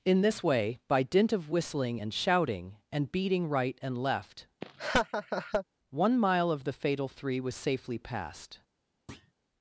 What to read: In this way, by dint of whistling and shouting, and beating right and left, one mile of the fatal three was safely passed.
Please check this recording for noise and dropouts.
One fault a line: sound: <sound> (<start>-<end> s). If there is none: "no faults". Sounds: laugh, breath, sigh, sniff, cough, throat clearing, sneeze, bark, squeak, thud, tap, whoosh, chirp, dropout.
sound: laugh (4.6-5.6 s)
sound: thud (9.1-9.3 s)